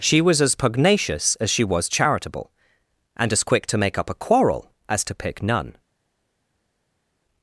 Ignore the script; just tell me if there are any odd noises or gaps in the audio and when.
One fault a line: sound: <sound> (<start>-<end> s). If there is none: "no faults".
no faults